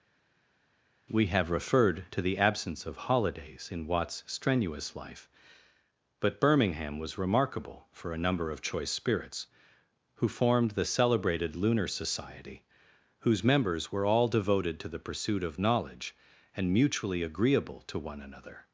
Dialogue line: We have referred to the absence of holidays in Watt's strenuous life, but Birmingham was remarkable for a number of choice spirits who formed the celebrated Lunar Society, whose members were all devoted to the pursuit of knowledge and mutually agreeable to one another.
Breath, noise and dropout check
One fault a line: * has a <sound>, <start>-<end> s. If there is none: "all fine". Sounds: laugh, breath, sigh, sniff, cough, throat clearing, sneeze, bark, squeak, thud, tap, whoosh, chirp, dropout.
all fine